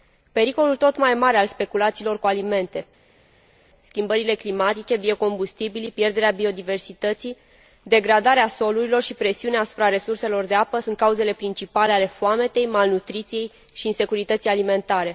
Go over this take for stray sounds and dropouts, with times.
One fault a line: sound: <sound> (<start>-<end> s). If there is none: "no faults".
no faults